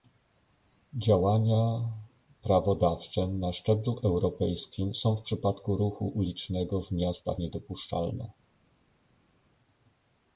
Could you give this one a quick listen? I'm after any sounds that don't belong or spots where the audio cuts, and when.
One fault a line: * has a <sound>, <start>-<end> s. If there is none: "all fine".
all fine